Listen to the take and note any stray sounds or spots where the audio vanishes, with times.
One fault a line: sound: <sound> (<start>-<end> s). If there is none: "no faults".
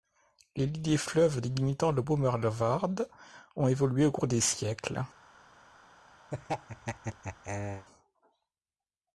sound: laugh (6.3-7.9 s)